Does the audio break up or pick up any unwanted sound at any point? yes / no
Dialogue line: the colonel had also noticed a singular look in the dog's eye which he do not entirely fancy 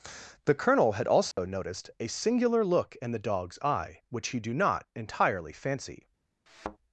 yes